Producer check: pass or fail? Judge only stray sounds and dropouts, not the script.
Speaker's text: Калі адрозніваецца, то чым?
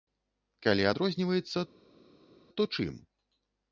pass